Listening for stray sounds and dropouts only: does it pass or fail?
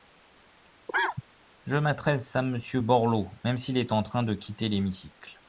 fail